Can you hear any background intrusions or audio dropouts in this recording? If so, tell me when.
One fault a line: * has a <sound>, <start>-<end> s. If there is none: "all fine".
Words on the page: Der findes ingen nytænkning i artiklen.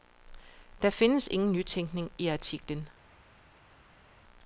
all fine